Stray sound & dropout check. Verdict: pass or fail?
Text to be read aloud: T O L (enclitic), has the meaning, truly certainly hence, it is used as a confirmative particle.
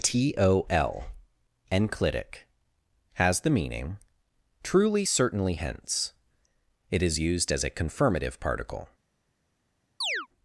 fail